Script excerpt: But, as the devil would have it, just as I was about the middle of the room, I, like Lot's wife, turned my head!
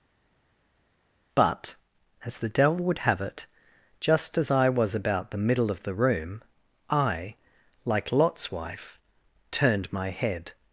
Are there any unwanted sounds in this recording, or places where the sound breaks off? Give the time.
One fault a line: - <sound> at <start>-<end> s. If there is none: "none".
none